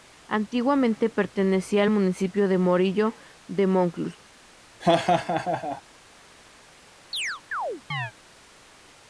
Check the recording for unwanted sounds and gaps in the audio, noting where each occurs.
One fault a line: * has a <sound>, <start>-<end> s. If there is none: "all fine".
* has a laugh, 4.8-5.8 s
* has a chirp, 7.1-8.1 s